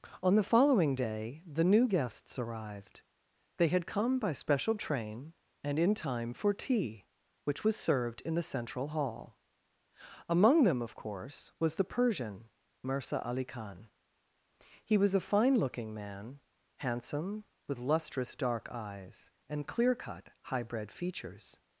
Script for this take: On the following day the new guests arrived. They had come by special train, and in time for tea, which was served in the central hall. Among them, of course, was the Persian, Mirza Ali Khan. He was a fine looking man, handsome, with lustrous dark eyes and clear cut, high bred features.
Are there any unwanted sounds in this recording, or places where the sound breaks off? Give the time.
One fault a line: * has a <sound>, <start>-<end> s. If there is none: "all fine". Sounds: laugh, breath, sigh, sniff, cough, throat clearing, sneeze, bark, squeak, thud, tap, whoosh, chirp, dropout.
all fine